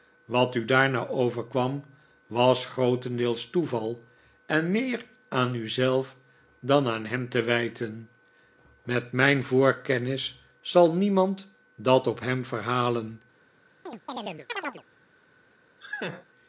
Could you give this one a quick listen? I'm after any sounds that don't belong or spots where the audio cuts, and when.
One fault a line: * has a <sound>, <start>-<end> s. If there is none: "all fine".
* has a chirp, 13.9-14.8 s
* has a laugh, 15.8-16.3 s